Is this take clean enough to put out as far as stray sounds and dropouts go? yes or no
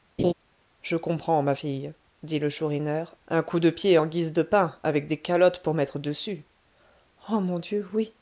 no